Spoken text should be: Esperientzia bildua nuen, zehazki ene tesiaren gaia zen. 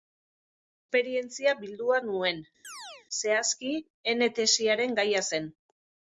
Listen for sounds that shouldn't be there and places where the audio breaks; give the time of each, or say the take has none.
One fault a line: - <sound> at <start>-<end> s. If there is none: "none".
- chirp at 2.6-3.1 s